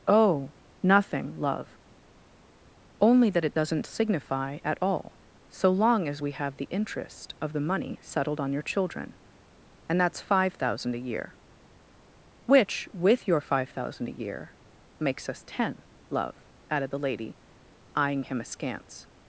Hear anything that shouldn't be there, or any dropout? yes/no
no